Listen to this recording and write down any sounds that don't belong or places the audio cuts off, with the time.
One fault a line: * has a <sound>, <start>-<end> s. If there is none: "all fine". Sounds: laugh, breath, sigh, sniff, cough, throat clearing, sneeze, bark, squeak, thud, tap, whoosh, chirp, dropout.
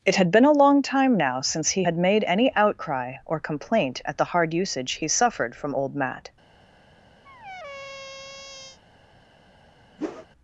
* has a squeak, 7.2-8.8 s
* has a whoosh, 10.0-10.3 s